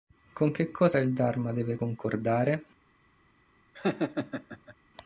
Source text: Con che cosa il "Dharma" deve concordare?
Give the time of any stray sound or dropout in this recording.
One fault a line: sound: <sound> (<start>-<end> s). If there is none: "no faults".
sound: laugh (3.7-4.8 s)